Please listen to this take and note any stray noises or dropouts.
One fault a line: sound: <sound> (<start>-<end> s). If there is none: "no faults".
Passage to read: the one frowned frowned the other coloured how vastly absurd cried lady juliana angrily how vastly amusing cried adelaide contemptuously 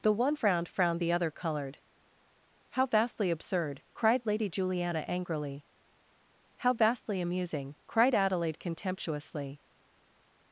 no faults